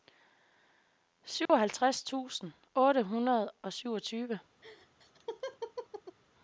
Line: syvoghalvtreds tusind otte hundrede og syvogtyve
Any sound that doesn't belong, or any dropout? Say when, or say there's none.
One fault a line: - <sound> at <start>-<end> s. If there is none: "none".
- dropout at 1.5-1.5 s
- laugh at 4.6-6.2 s